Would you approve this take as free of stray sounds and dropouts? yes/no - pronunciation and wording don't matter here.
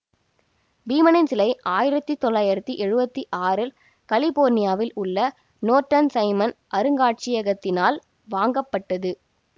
yes